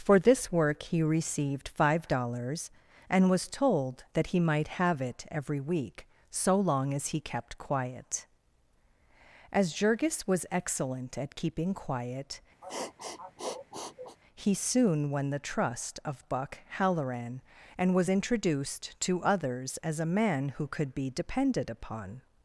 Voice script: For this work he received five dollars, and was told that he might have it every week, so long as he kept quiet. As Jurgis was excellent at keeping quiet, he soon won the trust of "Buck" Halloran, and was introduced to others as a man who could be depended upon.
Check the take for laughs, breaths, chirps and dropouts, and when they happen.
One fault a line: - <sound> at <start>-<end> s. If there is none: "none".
- sniff at 12.6-14.2 s